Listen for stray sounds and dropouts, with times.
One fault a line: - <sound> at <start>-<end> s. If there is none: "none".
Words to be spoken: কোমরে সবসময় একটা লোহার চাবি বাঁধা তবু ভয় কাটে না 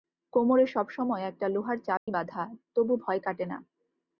- dropout at 2.0-2.1 s